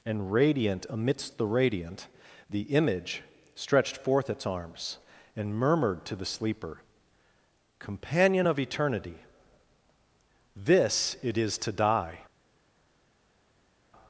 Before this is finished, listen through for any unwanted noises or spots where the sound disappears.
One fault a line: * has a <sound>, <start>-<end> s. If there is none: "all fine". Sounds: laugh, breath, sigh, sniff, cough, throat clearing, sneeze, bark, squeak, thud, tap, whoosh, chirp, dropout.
all fine